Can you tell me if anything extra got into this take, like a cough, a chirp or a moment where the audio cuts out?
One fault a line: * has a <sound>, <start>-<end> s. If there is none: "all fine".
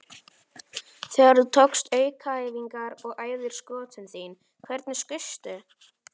all fine